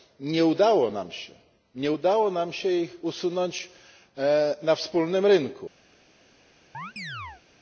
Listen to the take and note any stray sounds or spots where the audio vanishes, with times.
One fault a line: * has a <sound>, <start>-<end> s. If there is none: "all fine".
* has a chirp, 6.7-7.4 s